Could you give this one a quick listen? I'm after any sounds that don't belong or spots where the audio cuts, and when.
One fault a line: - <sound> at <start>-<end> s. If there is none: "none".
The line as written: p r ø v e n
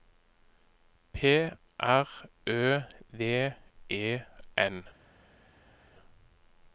none